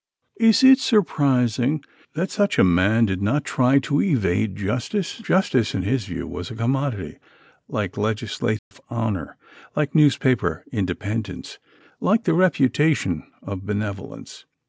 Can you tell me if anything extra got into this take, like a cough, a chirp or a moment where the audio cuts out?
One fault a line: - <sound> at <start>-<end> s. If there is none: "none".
- dropout at 8.6-8.7 s